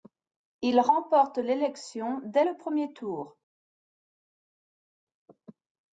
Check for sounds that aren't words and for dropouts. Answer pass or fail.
pass